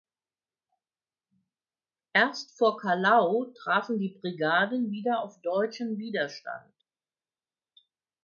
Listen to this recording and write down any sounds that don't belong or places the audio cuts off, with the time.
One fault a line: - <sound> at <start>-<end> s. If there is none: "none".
none